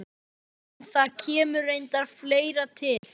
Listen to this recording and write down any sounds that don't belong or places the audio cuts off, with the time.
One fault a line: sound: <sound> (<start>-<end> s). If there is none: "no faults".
sound: dropout (3.0-3.0 s)